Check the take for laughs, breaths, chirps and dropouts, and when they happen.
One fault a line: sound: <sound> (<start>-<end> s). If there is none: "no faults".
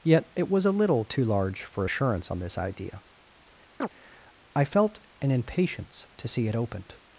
sound: chirp (3.8-3.9 s)